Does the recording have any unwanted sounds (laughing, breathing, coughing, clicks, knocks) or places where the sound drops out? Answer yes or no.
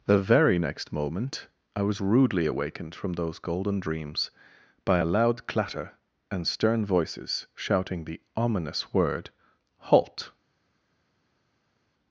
no